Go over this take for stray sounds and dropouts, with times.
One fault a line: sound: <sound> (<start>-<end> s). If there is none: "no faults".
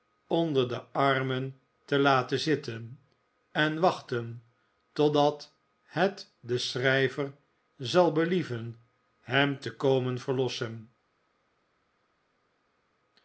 no faults